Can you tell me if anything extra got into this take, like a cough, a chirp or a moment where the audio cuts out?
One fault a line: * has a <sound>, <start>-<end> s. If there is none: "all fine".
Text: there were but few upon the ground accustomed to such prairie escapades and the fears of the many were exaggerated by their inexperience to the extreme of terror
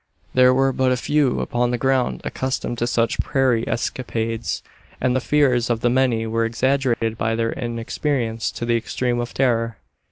* has a dropout, 6.9-7.0 s